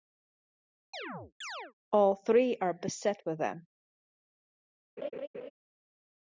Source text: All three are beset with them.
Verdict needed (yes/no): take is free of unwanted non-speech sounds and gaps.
no